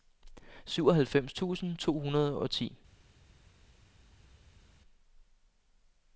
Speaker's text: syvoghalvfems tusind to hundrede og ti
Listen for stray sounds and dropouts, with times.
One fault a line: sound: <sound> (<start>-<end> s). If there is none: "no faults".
no faults